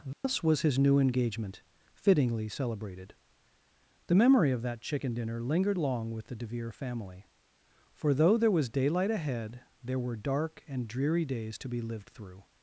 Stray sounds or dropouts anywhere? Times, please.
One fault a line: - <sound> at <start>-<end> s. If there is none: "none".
- dropout at 0.1-0.2 s